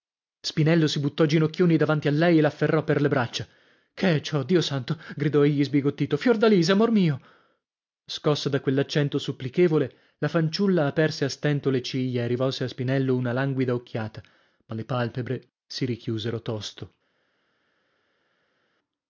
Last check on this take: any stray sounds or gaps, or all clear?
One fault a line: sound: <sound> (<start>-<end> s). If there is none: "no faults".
no faults